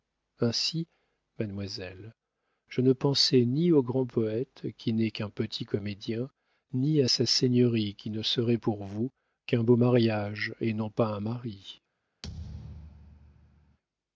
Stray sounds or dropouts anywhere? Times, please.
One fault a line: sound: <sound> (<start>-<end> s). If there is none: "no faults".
sound: thud (12.2-13.8 s)